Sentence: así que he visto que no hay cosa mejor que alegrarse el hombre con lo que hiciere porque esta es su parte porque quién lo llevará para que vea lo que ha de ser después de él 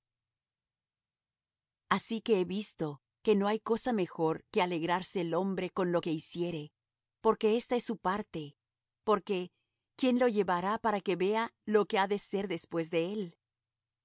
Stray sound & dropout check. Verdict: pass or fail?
pass